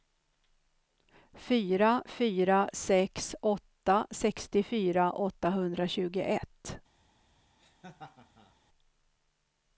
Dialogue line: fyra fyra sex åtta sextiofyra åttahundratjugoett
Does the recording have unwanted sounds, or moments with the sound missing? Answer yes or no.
yes